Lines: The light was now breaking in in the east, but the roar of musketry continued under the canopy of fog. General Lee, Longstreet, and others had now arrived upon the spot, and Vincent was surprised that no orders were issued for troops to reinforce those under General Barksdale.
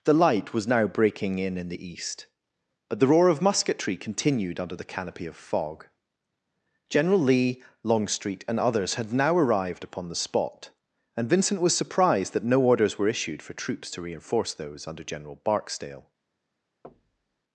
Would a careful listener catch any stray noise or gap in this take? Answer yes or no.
yes